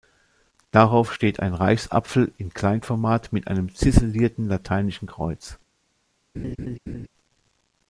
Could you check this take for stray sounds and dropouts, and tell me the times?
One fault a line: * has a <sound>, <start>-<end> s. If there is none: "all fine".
* has a laugh, 6.3-7.1 s